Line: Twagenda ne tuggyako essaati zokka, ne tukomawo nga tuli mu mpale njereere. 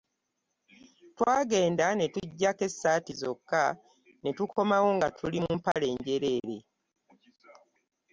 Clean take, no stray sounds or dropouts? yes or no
no